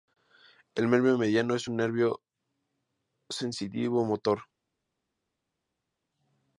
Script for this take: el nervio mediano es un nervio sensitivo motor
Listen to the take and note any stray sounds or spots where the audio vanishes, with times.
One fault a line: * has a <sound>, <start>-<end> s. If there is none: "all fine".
all fine